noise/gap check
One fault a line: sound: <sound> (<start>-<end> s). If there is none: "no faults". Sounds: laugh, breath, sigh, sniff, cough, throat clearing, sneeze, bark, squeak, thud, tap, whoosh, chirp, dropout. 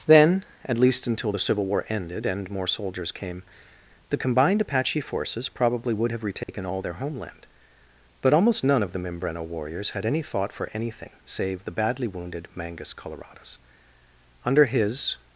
sound: dropout (6.4-6.5 s)